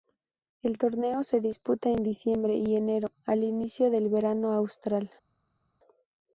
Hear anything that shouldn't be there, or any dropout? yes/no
no